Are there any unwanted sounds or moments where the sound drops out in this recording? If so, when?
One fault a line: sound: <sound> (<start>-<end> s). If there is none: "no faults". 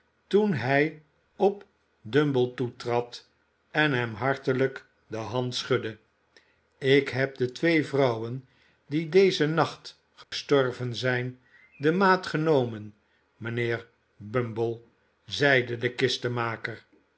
sound: dropout (10.2-10.3 s)